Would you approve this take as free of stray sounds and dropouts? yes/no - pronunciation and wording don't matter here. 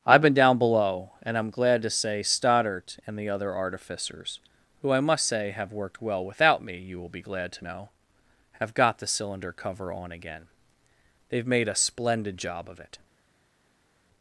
yes